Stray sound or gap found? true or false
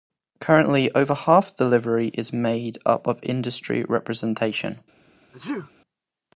true